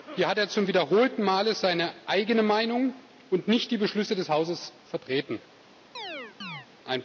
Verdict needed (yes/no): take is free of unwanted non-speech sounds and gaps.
no